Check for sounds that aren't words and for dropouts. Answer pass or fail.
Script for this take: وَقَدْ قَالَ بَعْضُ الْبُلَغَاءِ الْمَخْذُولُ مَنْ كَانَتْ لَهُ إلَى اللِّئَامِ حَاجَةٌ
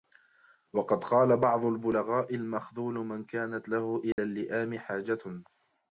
fail